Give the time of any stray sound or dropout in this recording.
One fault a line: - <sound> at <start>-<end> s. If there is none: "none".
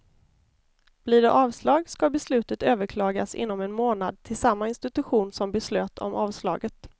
none